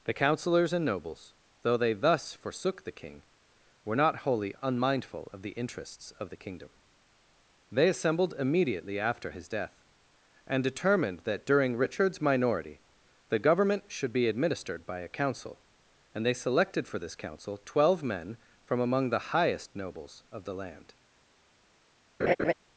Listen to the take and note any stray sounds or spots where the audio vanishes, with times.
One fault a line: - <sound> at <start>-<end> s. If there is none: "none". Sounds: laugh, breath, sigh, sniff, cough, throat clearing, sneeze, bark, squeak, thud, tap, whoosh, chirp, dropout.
- laugh at 22.2-22.5 s